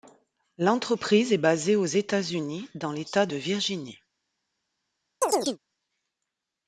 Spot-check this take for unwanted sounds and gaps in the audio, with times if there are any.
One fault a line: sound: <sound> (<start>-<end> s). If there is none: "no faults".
sound: chirp (5.2-5.6 s)